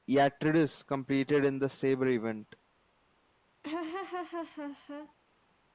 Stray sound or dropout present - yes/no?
yes